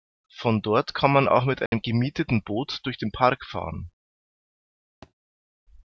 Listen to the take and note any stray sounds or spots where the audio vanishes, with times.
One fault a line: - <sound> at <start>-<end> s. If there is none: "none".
- dropout at 1.7-1.7 s
- thud at 5.0-5.1 s